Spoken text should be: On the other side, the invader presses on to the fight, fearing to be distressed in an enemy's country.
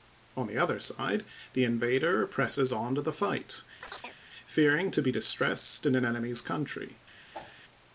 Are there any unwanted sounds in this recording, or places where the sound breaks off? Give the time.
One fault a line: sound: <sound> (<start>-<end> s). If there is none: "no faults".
sound: chirp (3.8-4.2 s)
sound: whoosh (7.3-7.6 s)